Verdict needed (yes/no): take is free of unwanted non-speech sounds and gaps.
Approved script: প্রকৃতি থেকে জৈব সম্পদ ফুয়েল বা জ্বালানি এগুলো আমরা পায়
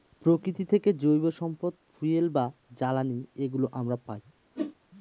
no